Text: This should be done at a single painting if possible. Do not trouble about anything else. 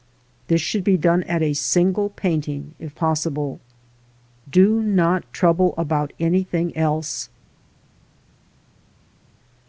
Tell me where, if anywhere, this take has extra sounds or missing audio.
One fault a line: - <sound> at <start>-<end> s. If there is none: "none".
none